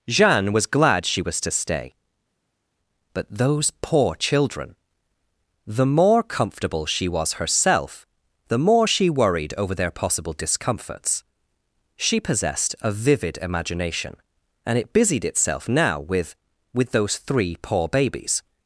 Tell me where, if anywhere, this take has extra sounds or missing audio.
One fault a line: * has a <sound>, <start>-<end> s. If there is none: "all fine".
all fine